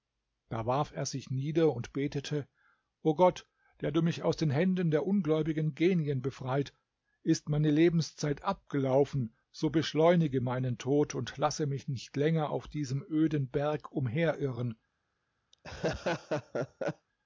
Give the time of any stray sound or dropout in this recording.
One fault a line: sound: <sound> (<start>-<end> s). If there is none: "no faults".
sound: laugh (15.5-17.1 s)